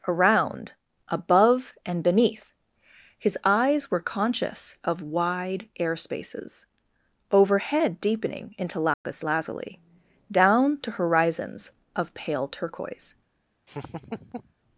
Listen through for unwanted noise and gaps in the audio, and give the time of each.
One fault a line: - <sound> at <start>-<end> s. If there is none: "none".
- dropout at 8.9-9.0 s
- laugh at 13.7-14.5 s